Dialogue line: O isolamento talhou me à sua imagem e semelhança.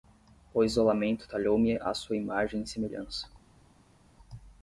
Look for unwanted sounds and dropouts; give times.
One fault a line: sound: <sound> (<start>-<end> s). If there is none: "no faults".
no faults